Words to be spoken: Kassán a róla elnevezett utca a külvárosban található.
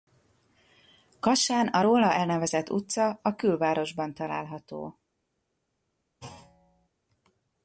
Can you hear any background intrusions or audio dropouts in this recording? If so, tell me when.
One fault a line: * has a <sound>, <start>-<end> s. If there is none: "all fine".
* has a thud, 6.2-6.9 s